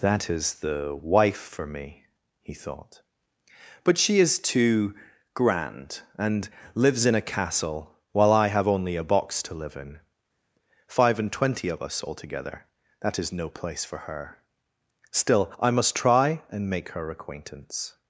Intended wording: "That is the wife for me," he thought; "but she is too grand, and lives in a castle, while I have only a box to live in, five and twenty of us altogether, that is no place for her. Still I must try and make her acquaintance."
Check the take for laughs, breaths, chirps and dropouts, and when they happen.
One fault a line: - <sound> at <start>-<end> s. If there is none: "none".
none